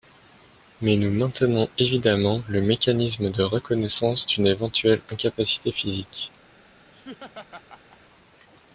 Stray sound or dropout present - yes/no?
yes